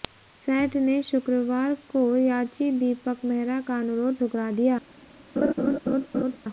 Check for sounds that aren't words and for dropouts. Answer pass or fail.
fail